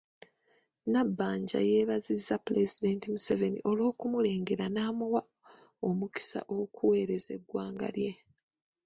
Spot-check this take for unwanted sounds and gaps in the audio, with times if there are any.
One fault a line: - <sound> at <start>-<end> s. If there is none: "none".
none